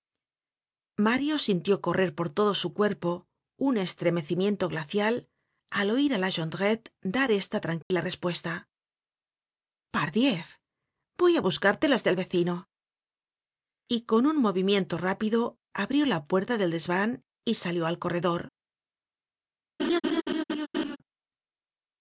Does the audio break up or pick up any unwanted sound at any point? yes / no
yes